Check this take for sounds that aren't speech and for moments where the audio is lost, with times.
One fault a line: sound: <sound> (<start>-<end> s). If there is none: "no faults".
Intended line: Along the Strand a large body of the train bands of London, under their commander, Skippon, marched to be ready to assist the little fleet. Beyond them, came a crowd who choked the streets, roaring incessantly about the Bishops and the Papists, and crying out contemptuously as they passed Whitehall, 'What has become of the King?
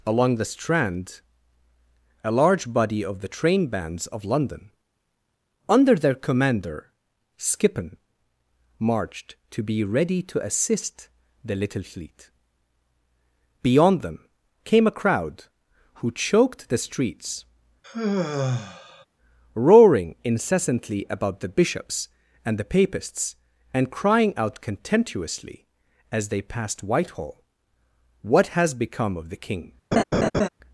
sound: sigh (17.8-19.1 s)
sound: laugh (29.9-30.5 s)